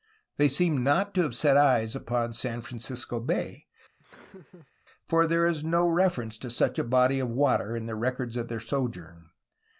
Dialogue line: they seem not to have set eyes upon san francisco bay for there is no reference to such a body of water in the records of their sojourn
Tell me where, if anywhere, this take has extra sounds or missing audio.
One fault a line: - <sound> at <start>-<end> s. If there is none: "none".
- laugh at 4.0-4.7 s